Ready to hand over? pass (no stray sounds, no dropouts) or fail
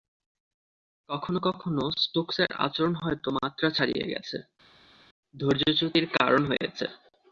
pass